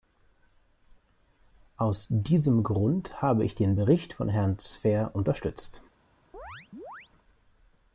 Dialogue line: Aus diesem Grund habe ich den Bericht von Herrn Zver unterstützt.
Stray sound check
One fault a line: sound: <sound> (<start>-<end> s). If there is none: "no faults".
sound: chirp (6.3-7.1 s)